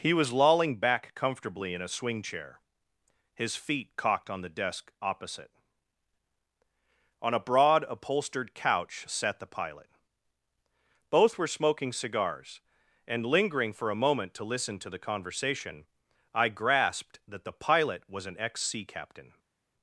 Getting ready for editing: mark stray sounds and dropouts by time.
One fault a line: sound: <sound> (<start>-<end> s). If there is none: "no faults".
no faults